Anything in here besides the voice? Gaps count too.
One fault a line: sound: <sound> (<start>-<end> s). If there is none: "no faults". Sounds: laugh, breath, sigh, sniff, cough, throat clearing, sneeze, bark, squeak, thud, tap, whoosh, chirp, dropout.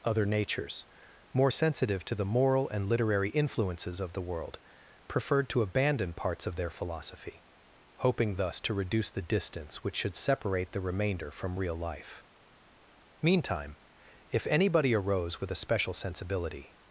no faults